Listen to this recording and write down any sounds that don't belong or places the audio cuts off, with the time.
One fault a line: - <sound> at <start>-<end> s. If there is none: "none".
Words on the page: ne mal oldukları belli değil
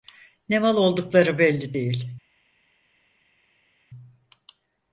none